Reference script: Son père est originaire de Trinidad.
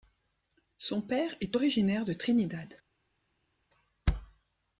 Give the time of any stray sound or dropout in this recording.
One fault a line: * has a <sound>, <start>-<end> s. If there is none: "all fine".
all fine